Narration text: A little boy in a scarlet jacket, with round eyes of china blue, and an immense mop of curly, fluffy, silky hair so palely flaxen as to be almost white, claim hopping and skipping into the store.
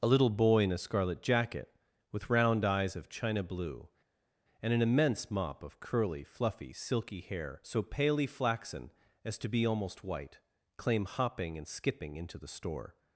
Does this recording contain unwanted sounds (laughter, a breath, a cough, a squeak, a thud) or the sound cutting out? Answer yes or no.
no